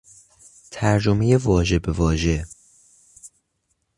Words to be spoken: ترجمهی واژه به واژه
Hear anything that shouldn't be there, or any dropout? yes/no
no